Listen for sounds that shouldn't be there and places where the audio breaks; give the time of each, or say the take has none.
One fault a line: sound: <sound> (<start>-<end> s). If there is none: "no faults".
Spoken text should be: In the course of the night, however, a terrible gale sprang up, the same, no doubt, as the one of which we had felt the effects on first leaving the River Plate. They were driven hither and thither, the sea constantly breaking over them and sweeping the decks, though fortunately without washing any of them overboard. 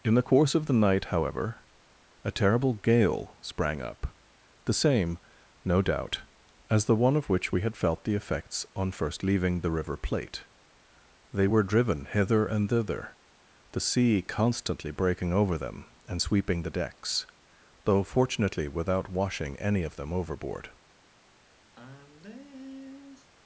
sound: sigh (21.8-23.3 s)